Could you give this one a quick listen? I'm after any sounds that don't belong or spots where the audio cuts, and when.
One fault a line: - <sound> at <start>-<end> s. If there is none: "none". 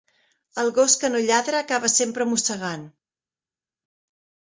none